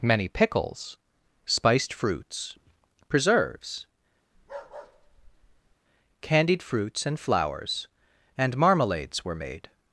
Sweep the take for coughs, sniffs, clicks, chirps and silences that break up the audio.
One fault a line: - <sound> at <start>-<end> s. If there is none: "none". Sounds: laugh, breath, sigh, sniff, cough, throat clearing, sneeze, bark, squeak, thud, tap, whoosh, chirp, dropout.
- bark at 4.3-5.8 s